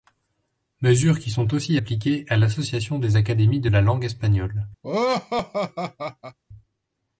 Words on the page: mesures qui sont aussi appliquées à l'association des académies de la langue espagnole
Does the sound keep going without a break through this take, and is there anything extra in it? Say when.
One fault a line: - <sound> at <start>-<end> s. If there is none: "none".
- laugh at 4.8-6.4 s